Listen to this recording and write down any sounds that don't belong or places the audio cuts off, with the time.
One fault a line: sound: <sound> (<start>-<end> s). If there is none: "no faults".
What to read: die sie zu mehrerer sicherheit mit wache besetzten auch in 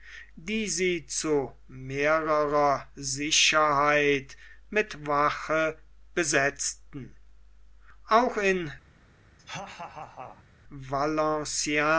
sound: laugh (9.4-10.4 s)